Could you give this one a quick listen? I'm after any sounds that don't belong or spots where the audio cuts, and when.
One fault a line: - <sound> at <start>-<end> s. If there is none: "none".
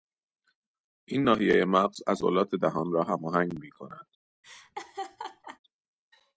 - laugh at 4.4-5.6 s